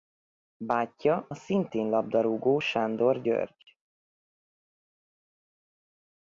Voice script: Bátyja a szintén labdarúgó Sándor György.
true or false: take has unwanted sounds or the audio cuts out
false